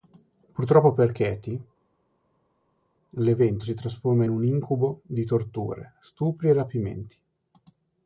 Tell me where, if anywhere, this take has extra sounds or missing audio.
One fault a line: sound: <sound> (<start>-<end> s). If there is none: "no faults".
no faults